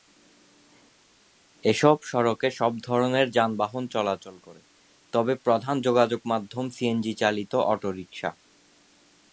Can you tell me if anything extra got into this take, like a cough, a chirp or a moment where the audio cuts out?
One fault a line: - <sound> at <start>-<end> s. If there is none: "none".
none